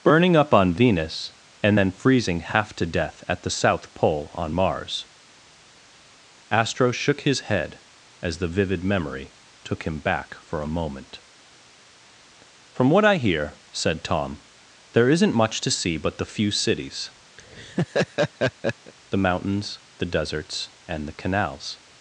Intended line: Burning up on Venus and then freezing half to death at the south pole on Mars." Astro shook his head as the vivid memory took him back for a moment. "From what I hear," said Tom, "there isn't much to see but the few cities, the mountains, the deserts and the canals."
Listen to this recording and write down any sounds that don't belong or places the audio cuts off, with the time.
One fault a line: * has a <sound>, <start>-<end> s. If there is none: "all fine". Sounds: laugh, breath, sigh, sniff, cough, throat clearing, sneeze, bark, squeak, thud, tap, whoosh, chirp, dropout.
* has a laugh, 17.4-18.9 s